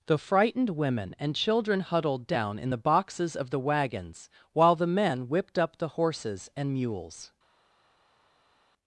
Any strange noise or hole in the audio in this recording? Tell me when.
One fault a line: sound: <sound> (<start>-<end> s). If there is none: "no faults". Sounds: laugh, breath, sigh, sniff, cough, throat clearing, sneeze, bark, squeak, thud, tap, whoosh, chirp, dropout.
no faults